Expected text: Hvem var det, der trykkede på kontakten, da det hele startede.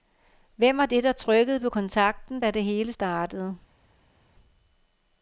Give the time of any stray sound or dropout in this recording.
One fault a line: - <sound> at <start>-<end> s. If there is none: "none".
none